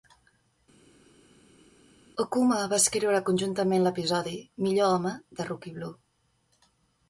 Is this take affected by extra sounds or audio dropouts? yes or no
no